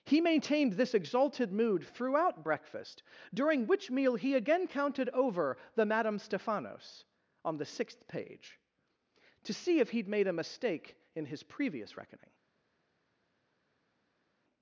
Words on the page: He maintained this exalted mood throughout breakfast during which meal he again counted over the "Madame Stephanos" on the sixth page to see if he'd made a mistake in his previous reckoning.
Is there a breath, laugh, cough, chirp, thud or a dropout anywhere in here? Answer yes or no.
no